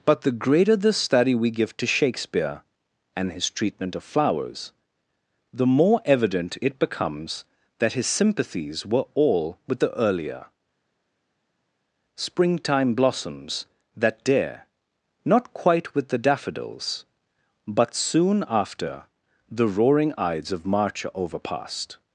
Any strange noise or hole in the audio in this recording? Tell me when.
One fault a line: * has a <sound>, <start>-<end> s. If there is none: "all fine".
all fine